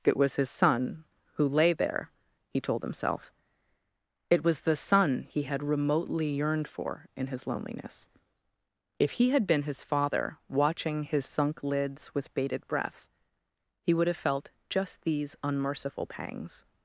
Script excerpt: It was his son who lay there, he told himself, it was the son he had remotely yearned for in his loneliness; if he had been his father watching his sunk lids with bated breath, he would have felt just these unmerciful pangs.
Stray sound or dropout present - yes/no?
no